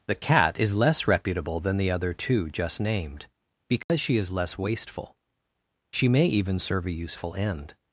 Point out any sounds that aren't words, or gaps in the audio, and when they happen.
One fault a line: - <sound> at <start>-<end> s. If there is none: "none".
- dropout at 3.8-3.9 s